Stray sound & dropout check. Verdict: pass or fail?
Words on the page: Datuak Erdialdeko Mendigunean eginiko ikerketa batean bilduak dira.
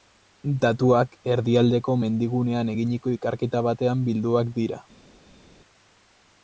pass